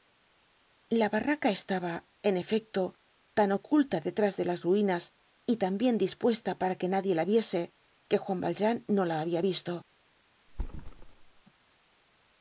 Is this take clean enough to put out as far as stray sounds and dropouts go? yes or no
no